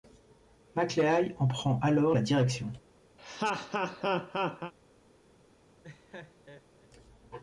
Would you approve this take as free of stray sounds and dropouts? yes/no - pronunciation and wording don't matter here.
no